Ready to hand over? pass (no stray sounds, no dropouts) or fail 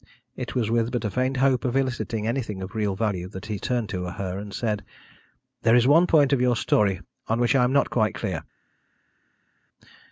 pass